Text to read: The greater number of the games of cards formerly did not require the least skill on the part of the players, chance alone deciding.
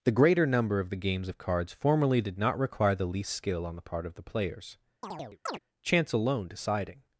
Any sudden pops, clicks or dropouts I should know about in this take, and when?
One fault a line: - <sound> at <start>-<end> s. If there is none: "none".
- chirp at 5.0-5.6 s